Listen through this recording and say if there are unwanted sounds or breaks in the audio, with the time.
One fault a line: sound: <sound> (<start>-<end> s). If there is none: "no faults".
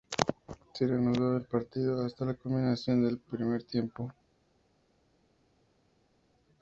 no faults